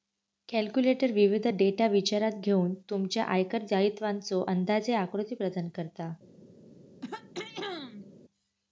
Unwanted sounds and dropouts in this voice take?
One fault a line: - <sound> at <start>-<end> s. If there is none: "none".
- throat clearing at 7.0-8.1 s